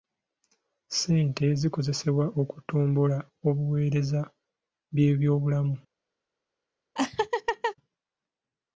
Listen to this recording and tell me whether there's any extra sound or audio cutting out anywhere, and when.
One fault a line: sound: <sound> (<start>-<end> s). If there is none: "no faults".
sound: laugh (7.0-7.8 s)